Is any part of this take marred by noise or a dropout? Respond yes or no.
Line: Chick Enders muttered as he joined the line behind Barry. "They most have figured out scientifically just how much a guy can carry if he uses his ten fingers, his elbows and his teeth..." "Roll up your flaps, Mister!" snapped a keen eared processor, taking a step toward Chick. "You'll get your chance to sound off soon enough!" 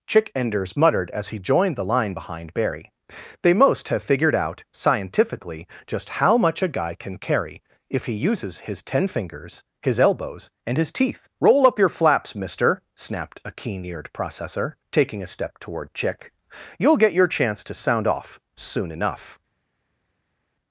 no